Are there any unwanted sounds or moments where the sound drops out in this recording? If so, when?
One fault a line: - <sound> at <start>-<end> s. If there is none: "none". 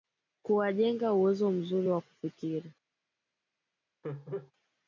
- laugh at 4.0-4.5 s